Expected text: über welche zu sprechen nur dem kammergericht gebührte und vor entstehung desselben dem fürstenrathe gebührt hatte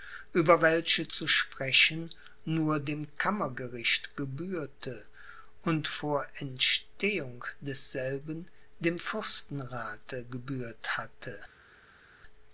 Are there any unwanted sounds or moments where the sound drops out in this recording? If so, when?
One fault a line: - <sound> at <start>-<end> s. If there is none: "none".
none